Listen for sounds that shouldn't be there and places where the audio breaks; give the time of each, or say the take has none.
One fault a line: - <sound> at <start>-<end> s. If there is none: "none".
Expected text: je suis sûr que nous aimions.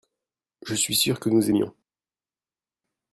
none